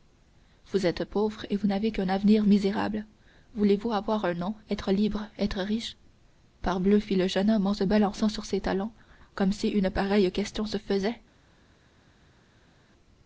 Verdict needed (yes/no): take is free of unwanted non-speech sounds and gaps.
yes